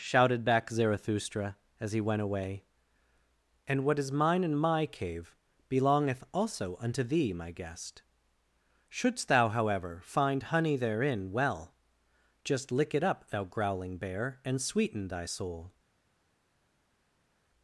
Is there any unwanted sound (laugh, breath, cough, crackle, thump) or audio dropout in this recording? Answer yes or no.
no